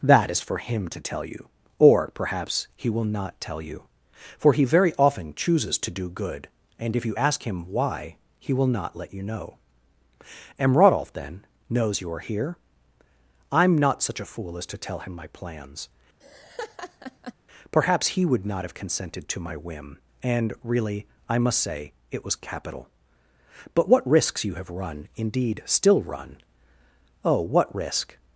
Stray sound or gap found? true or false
true